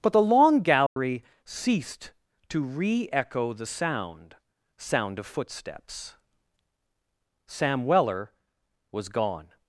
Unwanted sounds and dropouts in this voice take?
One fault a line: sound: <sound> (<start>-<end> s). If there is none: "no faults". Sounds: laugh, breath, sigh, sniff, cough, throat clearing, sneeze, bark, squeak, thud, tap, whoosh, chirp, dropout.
sound: dropout (0.9-1.0 s)